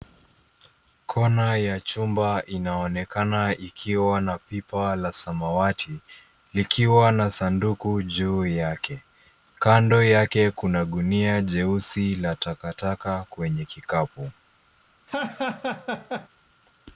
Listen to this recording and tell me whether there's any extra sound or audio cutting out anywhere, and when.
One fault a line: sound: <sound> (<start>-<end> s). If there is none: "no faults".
sound: laugh (15.1-16.3 s)